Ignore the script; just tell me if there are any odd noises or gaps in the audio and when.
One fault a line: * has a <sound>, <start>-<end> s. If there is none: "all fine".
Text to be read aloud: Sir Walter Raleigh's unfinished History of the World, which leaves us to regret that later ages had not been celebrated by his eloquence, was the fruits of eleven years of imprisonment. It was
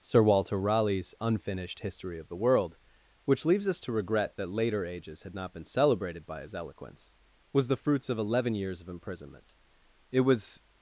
all fine